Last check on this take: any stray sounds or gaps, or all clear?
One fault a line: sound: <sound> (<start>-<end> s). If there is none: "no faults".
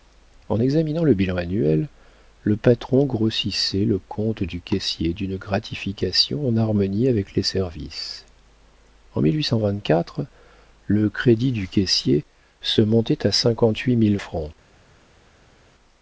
no faults